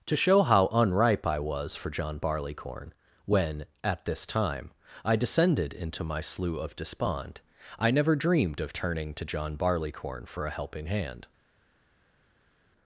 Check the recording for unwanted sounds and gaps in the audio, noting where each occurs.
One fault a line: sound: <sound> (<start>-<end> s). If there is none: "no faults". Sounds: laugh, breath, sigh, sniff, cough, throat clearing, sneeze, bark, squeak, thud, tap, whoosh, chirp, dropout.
no faults